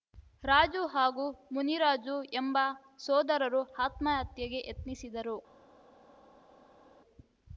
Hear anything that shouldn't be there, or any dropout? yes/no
no